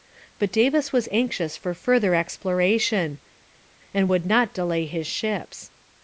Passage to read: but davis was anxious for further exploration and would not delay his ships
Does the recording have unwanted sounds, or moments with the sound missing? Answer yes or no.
no